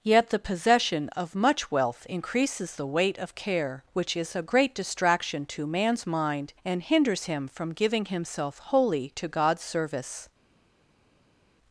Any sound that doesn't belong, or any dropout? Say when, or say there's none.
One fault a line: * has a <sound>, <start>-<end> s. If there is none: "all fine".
all fine